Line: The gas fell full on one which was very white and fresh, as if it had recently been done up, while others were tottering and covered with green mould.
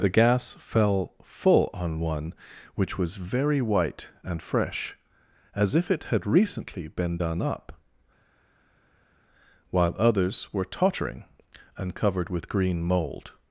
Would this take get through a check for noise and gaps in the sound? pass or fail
pass